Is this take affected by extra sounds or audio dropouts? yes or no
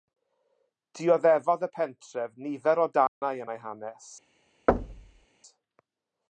yes